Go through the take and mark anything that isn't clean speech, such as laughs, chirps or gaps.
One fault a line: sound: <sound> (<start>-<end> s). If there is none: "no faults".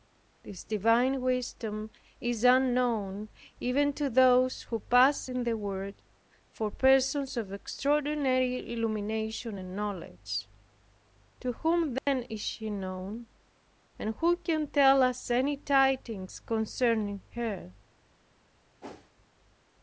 sound: dropout (12.0-12.1 s)
sound: whoosh (18.8-19.1 s)